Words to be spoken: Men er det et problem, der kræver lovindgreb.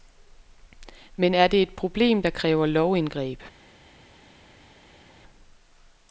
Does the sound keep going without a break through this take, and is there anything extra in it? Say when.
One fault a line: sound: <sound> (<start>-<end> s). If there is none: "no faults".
no faults